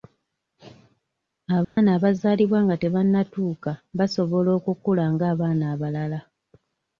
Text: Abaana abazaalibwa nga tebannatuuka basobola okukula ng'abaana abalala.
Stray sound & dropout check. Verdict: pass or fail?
fail